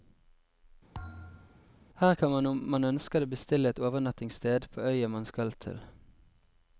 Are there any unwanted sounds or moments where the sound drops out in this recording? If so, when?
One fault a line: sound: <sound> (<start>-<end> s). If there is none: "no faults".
sound: thud (0.9-1.7 s)